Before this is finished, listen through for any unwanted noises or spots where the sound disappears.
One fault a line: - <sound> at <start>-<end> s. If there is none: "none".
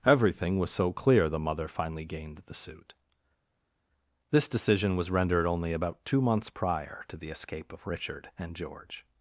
none